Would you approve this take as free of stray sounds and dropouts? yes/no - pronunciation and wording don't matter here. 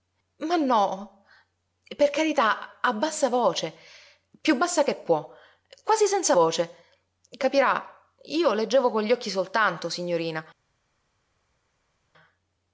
yes